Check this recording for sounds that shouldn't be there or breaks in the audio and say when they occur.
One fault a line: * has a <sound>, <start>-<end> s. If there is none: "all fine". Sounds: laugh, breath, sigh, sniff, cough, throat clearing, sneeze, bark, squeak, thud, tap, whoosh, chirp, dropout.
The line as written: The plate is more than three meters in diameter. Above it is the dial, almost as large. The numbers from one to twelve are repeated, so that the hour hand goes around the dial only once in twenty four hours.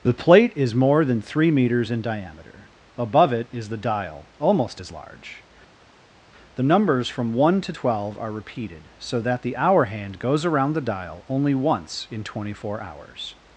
all fine